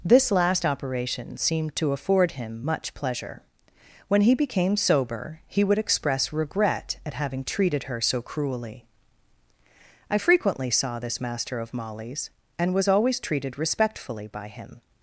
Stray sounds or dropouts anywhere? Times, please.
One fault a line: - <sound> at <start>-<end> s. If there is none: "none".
none